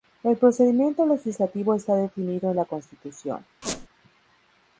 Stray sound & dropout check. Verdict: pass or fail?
fail